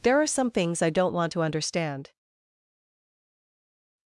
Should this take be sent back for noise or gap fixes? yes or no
no